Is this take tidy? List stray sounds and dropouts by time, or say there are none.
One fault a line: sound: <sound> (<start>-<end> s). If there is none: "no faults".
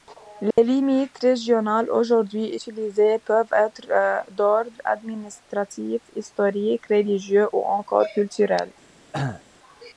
sound: dropout (0.5-0.6 s)
sound: cough (9.1-9.4 s)